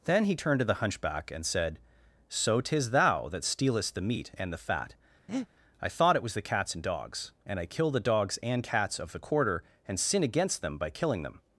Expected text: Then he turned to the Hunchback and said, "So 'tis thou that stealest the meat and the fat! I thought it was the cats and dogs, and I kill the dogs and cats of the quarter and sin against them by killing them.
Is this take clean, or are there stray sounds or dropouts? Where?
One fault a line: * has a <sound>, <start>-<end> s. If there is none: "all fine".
* has a breath, 5.3-5.5 s